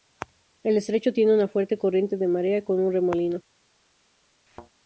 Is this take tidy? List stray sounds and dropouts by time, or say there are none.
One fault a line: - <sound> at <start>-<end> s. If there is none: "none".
- thud at 4.5-4.7 s